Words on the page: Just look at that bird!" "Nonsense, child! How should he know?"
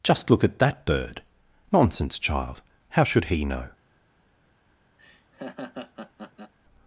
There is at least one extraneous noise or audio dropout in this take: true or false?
true